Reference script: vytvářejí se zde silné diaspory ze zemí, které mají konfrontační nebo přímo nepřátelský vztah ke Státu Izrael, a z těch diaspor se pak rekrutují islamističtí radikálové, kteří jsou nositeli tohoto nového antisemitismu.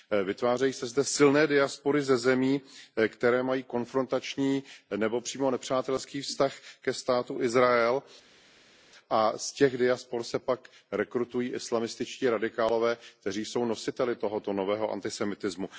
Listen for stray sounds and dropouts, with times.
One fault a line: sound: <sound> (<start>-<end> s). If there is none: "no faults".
no faults